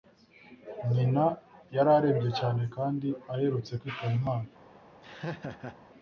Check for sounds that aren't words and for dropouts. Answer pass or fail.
fail